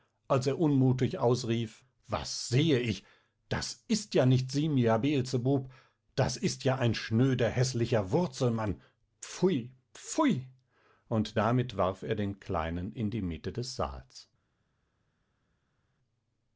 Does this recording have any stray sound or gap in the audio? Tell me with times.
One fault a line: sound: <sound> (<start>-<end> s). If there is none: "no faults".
no faults